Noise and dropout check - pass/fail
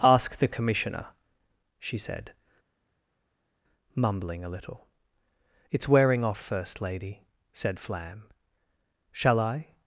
pass